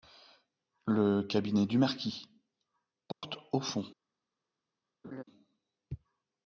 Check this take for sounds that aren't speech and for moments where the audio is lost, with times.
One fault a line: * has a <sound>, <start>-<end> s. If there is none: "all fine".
* has a dropout, 3.1-3.2 s
* has a laugh, 5.0-5.2 s